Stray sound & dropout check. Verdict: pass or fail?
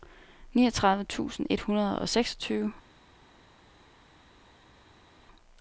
pass